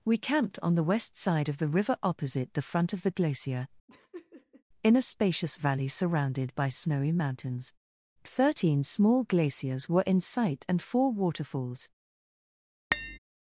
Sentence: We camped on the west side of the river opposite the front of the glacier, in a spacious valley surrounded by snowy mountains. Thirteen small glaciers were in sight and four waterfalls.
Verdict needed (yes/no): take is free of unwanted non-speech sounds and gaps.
no